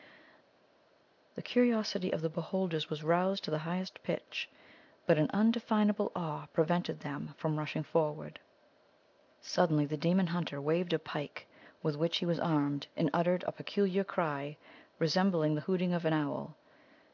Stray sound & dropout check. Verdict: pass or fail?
pass